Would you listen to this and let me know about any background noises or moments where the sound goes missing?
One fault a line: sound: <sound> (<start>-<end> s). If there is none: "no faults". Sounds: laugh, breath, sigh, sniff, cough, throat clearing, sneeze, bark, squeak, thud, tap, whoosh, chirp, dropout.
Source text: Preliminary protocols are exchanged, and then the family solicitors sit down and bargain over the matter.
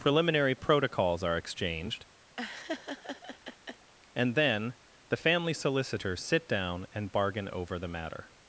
sound: laugh (2.4-3.9 s)